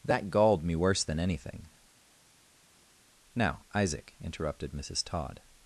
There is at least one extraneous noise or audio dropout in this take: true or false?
false